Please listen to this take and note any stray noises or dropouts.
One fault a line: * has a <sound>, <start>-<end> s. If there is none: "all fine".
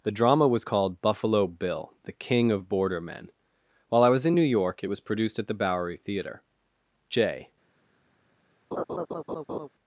* has a laugh, 8.7-9.7 s